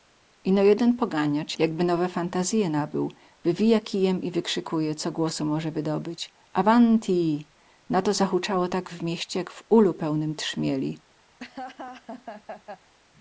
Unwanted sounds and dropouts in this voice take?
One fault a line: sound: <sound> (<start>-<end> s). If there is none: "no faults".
sound: laugh (11.4-12.9 s)